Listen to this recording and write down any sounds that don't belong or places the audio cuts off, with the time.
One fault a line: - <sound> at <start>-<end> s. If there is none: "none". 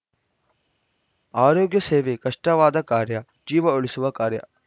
none